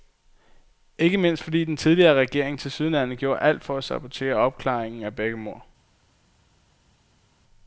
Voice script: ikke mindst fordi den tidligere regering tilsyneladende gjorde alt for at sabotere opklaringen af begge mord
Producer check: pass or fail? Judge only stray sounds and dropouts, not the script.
pass